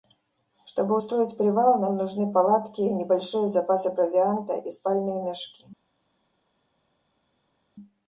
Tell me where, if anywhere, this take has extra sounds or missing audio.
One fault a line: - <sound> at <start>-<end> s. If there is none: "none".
none